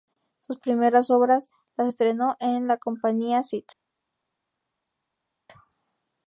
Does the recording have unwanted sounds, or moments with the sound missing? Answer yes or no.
no